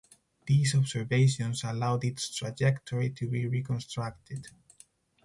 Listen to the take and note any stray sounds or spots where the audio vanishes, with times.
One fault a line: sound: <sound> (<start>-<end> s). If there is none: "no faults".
no faults